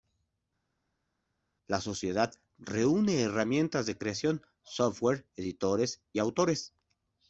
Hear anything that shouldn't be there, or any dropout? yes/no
no